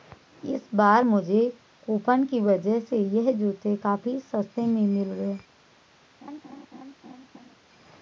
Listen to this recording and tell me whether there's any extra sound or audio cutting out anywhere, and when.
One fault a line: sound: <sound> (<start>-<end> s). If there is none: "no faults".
sound: laugh (6.2-7.6 s)